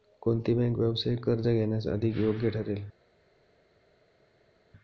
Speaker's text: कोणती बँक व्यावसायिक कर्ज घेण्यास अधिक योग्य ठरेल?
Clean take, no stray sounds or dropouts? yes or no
yes